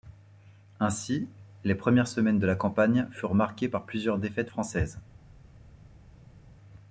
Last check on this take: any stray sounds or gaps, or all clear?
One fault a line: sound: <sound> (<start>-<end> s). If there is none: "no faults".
no faults